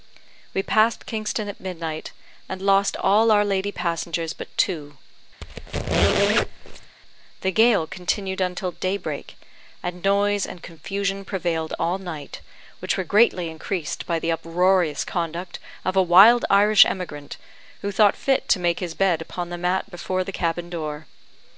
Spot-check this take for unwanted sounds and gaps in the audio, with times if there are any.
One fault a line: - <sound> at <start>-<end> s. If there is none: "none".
- squeak at 5.4-7.0 s